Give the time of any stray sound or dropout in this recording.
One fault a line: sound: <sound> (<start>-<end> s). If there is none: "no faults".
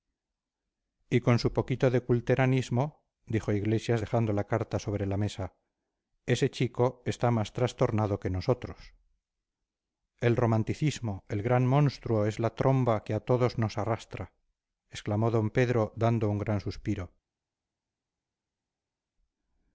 no faults